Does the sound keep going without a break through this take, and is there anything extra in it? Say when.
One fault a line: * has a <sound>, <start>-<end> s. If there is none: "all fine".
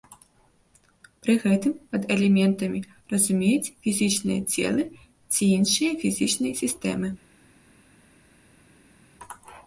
all fine